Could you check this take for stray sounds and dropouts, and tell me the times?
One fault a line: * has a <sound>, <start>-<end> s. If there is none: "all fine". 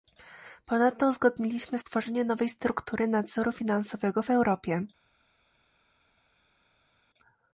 all fine